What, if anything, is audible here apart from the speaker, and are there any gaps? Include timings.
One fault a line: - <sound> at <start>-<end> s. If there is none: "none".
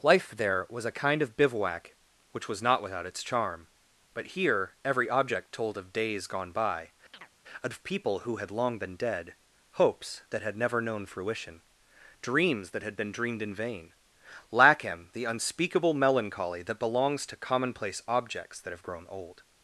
- chirp at 7.1-7.3 s